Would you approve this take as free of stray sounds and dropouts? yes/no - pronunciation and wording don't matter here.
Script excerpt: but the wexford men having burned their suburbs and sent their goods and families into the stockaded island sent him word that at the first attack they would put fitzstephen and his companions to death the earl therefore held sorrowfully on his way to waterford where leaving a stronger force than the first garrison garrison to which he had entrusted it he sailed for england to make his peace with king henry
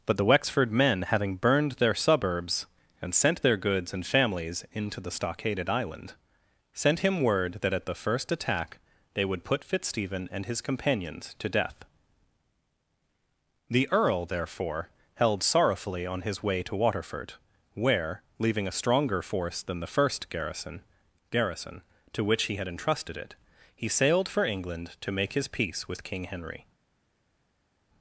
yes